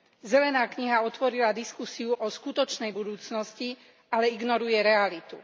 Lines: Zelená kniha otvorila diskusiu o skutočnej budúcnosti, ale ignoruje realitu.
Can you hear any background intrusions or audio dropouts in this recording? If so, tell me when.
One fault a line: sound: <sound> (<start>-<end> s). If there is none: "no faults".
no faults